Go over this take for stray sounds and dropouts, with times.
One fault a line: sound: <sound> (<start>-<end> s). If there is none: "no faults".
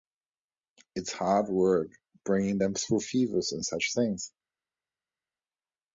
no faults